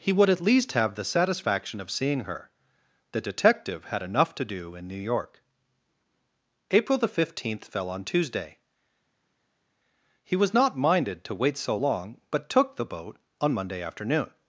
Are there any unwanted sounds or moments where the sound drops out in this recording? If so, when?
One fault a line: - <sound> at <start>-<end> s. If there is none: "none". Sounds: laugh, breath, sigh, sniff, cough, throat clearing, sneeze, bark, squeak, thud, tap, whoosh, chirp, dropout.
none